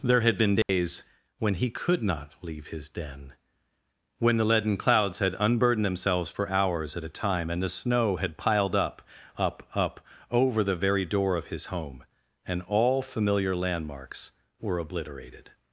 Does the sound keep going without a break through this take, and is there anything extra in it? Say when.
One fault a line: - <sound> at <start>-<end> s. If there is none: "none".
- dropout at 0.6-0.7 s